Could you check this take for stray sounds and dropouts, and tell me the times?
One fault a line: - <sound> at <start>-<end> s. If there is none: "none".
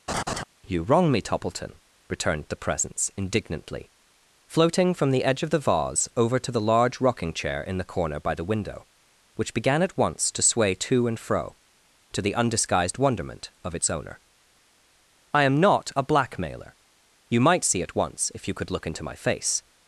- laugh at 0.1-0.4 s